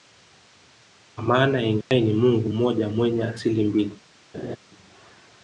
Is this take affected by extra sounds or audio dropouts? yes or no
yes